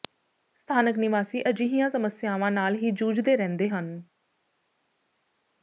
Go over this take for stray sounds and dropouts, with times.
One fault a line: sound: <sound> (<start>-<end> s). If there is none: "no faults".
no faults